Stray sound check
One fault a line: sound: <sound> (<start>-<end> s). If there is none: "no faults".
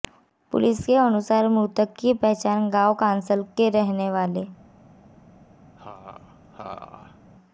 sound: laugh (5.8-7.2 s)